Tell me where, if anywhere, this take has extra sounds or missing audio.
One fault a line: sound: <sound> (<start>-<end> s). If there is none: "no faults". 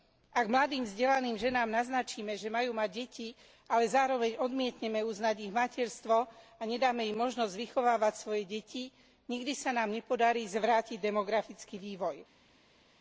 no faults